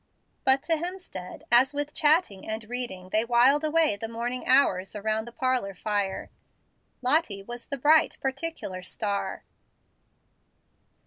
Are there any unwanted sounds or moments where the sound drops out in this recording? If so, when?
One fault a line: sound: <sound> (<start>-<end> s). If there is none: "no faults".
no faults